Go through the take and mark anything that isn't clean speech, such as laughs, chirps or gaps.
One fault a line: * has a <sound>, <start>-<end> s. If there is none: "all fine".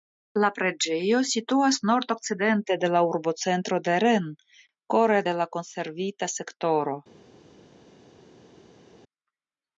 all fine